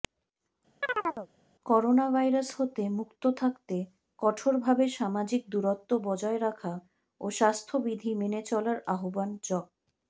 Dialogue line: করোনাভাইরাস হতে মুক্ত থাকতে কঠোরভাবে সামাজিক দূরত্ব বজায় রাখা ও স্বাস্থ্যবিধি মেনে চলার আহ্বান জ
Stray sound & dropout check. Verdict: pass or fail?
fail